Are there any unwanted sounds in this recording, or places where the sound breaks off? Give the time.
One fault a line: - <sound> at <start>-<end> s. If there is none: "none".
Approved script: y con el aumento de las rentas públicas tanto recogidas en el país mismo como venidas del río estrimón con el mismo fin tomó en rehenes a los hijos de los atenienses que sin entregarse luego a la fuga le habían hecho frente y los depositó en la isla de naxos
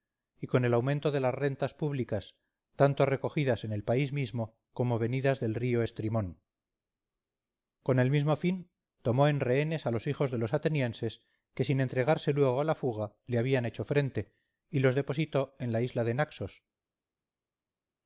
none